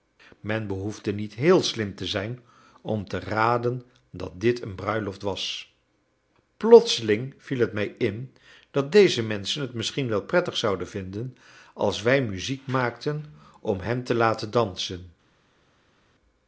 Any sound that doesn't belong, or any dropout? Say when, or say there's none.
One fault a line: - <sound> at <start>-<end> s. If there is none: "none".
none